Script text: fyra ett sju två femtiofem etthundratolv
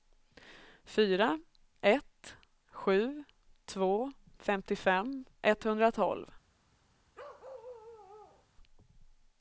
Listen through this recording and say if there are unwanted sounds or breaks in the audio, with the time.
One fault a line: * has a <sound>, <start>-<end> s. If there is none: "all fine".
* has a bark, 7.1-8.5 s